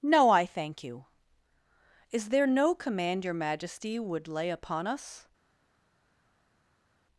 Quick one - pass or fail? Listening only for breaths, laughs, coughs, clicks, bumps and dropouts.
pass